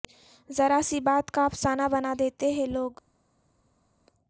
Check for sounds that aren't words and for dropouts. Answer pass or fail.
pass